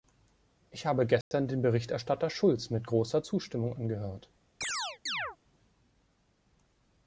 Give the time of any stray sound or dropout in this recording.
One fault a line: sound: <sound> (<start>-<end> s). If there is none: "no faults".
sound: dropout (1.2-1.3 s)
sound: chirp (4.6-5.4 s)